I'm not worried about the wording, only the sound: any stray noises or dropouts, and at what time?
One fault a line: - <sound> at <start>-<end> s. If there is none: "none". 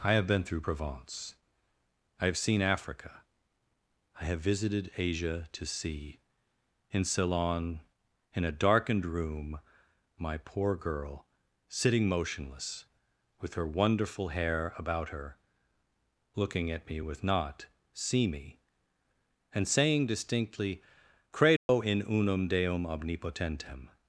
- dropout at 21.6-21.7 s